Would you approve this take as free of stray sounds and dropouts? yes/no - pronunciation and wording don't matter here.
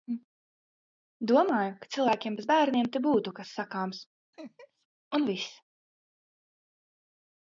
no